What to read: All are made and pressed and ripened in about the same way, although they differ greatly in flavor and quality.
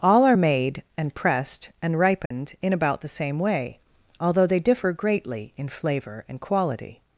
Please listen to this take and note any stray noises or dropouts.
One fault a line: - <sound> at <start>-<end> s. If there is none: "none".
- dropout at 2.3-2.3 s